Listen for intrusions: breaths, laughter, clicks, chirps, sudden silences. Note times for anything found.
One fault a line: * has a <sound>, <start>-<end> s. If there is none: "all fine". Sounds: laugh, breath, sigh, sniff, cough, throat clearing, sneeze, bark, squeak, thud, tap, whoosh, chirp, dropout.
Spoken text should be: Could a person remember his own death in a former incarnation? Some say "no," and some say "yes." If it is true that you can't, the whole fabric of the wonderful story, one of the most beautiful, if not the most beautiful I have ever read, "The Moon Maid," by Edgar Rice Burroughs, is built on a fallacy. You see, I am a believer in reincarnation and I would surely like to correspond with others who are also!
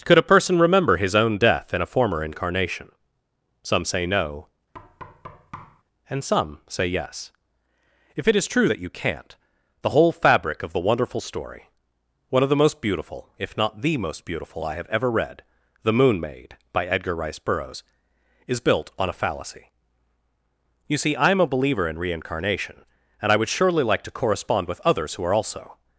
* has a thud, 4.7-5.8 s